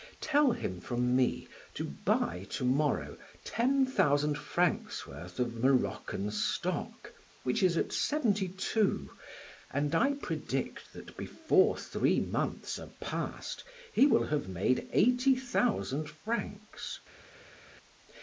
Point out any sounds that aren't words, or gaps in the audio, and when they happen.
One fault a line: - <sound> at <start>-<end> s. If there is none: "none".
none